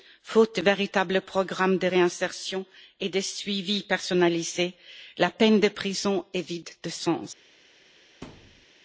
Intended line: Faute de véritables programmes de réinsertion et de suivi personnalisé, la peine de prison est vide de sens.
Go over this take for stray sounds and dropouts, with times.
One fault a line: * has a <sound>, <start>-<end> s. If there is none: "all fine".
* has a thud, 8.2-8.7 s